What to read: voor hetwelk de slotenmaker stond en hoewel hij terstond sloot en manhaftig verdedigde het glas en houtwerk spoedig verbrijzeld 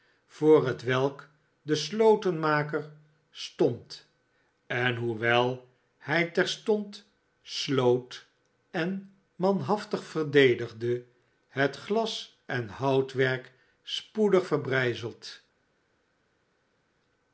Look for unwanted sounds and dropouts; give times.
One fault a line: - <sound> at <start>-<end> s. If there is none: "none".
none